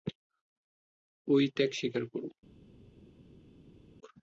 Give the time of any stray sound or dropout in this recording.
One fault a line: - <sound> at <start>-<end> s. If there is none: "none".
none